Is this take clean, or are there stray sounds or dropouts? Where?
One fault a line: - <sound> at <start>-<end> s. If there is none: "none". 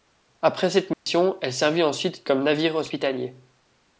- dropout at 0.9-1.1 s